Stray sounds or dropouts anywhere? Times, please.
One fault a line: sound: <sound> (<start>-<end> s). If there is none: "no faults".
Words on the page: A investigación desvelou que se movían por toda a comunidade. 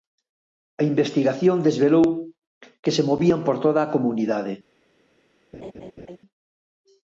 sound: laugh (5.5-6.2 s)